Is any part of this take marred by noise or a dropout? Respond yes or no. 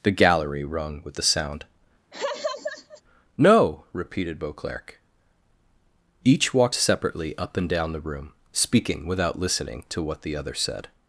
yes